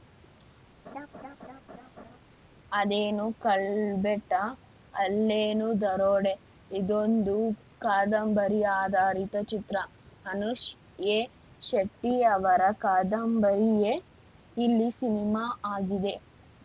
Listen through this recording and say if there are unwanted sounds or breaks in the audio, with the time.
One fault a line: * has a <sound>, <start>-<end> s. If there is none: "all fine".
* has a laugh, 0.8-2.2 s